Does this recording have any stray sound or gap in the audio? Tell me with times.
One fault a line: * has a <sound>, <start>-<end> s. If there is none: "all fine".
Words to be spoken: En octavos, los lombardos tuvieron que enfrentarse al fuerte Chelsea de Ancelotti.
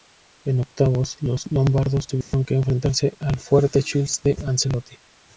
* has a dropout, 2.2-2.3 s